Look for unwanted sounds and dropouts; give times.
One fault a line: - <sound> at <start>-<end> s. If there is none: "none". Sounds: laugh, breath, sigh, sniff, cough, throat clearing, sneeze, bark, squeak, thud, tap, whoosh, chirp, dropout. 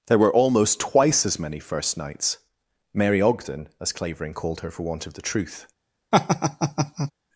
- laugh at 6.1-7.1 s